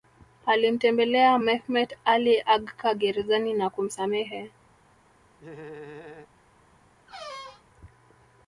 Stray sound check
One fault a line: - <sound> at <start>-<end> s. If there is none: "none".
- laugh at 5.4-6.3 s
- squeak at 7.1-7.6 s